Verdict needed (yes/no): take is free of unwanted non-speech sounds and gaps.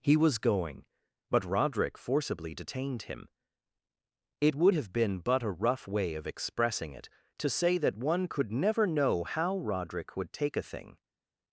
yes